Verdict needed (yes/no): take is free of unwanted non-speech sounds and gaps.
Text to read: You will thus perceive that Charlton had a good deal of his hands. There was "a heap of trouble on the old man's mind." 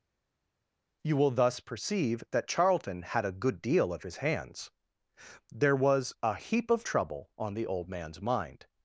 yes